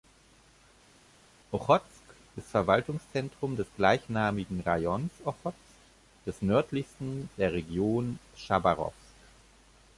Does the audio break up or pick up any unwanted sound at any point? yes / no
no